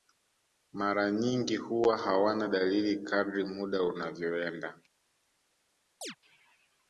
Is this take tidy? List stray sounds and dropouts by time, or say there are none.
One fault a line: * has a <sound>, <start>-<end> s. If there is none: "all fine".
* has a chirp, 6.0-6.2 s